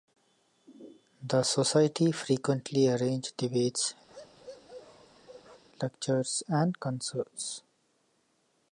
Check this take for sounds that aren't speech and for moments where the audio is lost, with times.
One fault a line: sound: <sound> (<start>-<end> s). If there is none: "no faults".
sound: bark (4.1-5.6 s)